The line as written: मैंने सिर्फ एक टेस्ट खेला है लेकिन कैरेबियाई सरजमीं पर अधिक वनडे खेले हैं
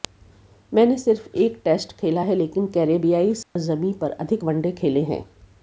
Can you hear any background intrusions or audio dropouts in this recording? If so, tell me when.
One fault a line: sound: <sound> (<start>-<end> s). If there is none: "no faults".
sound: dropout (3.4-3.6 s)